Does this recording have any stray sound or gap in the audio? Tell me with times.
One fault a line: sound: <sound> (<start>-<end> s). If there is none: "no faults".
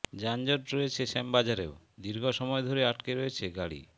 no faults